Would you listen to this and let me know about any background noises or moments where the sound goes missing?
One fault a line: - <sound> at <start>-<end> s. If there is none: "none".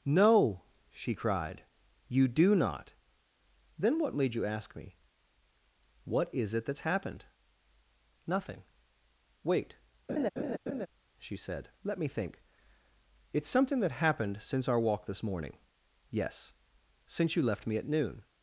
- laugh at 10.1-10.9 s